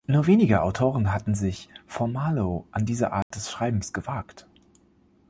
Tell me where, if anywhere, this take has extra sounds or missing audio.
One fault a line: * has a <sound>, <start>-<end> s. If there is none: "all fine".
* has a dropout, 3.2-3.3 s